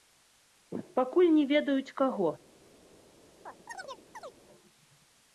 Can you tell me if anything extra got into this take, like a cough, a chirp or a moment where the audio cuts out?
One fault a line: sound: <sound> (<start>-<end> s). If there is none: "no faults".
sound: chirp (3.5-4.4 s)